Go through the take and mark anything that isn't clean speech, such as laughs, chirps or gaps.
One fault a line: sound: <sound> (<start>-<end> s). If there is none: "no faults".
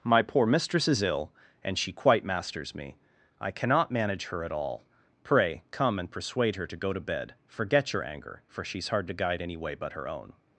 no faults